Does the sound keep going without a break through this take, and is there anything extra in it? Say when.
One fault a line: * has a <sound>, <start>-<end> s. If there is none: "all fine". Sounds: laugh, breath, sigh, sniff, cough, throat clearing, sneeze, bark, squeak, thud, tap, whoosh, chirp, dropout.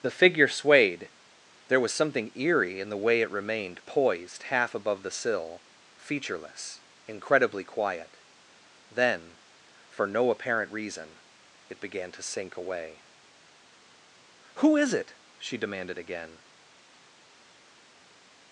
all fine